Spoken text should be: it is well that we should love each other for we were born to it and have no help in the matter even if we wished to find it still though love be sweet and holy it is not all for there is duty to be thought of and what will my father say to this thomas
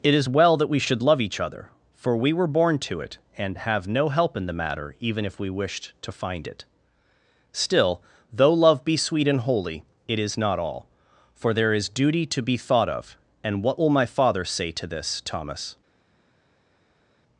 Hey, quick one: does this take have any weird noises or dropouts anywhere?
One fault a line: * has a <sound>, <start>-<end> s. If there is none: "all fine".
all fine